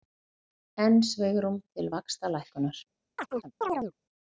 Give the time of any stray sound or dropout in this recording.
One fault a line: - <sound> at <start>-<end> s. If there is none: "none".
- chirp at 3.2-3.9 s